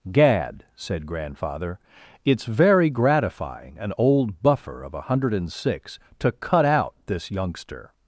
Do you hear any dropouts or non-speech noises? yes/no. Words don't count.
no